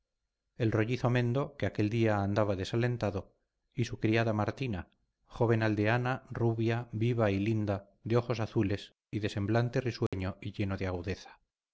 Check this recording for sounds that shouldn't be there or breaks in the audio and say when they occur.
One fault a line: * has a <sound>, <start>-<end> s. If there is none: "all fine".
* has a dropout, 10.1-10.1 s